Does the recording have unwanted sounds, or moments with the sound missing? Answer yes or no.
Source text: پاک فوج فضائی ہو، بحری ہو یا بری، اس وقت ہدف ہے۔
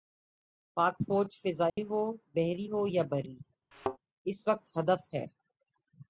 yes